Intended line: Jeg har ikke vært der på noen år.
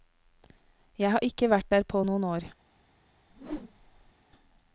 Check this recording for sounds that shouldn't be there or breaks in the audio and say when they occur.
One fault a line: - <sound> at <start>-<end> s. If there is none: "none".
- whoosh at 3.3-4.1 s